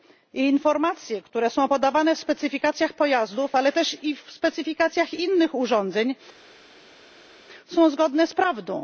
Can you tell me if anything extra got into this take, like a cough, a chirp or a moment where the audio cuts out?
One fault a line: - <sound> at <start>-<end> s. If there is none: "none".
none